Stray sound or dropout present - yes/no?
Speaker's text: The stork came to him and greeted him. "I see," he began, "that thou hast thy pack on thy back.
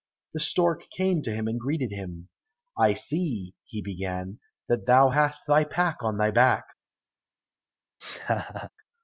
yes